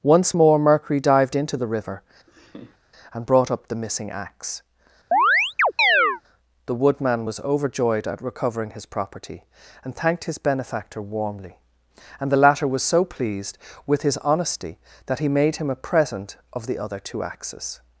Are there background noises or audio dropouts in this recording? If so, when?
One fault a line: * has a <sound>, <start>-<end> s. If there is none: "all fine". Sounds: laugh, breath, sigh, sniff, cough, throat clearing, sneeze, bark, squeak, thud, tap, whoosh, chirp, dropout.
* has a laugh, 2.3-2.8 s
* has a chirp, 5.1-6.2 s